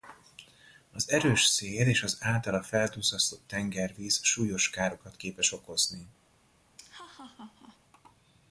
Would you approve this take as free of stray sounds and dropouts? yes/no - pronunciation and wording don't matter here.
no